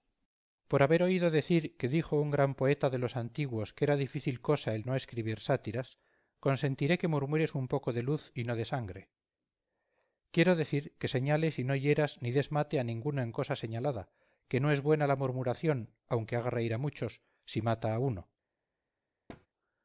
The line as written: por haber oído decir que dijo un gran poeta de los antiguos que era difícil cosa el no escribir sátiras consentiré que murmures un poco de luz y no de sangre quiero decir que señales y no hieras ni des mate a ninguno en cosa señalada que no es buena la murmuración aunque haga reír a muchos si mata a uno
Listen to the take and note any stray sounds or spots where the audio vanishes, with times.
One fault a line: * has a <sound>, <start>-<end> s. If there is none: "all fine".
* has a thud, 19.3-19.5 s